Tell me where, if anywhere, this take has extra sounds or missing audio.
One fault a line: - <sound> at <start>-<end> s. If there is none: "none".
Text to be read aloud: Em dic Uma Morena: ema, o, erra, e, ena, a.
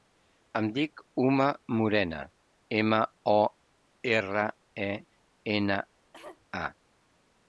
- cough at 6.1-6.5 s